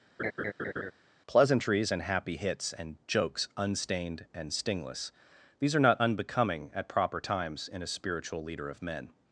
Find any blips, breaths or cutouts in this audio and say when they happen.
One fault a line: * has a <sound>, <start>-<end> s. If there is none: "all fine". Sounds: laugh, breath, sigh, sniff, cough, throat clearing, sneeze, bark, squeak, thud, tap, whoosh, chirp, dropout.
* has a laugh, 0.2-0.9 s